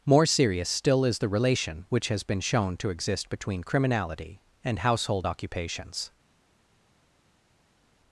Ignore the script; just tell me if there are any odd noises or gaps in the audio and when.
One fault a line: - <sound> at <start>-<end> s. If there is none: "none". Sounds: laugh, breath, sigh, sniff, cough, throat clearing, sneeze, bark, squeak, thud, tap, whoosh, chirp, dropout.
none